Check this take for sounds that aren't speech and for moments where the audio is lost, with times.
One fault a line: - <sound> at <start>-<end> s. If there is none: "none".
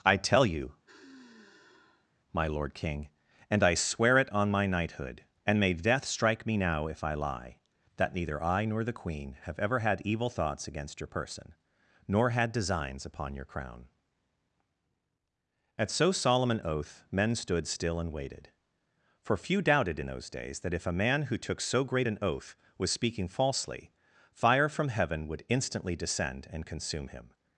- sigh at 0.9-2.1 s